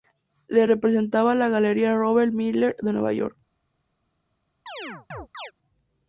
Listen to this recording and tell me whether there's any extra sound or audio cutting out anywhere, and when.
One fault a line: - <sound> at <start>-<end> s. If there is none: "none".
- chirp at 4.7-5.5 s